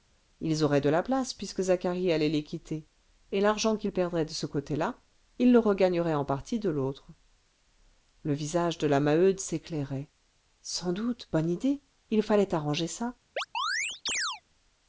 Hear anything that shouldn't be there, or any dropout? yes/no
yes